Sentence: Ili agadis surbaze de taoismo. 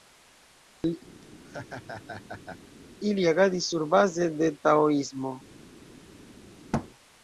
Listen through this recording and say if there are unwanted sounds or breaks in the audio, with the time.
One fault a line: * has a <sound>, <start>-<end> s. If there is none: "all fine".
* has a laugh, 1.2-2.6 s
* has a thud, 6.7-6.9 s